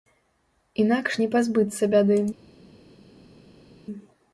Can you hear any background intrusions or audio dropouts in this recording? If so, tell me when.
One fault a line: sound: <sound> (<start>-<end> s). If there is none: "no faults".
no faults